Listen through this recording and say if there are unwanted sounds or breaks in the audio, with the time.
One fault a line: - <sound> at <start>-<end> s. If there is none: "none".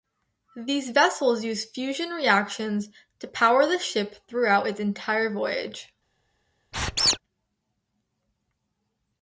- squeak at 6.7-7.2 s